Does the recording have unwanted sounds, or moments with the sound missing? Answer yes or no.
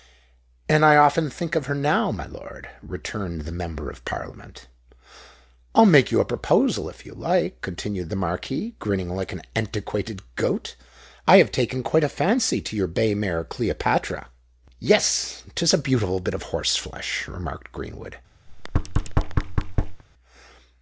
yes